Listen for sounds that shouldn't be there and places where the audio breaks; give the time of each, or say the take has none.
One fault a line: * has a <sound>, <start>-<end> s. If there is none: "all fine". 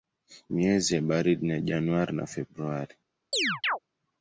* has a chirp, 3.3-3.8 s